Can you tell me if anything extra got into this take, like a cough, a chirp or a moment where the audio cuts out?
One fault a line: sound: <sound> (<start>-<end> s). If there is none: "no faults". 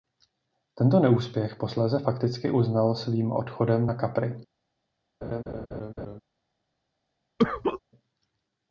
sound: laugh (5.2-6.2 s)
sound: cough (7.4-7.8 s)